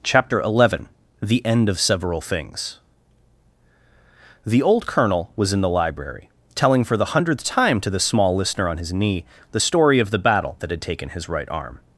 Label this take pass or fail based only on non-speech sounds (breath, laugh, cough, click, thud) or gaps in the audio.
pass